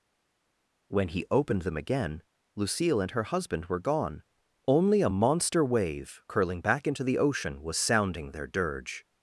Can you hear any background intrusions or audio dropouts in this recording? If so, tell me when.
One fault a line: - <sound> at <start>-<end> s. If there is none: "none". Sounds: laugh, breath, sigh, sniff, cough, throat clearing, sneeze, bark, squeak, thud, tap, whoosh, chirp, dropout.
none